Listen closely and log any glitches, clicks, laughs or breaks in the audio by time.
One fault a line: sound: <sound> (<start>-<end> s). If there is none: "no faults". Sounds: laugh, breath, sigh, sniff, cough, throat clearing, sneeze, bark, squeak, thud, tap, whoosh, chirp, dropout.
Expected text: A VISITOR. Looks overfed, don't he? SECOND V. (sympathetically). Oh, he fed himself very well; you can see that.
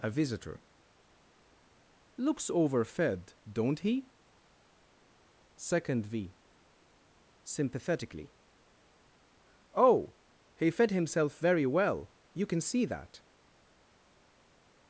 no faults